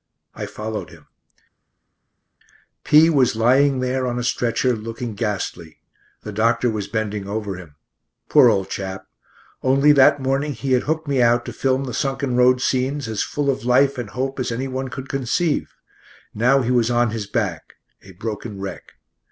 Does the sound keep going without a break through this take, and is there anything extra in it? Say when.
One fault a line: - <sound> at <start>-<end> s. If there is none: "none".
none